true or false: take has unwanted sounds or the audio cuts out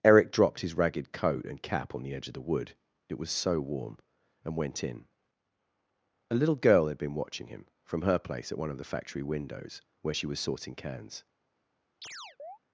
true